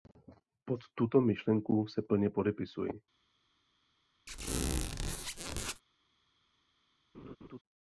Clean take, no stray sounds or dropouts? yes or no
no